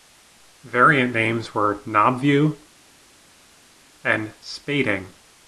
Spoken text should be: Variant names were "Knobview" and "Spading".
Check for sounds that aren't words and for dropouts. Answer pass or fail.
pass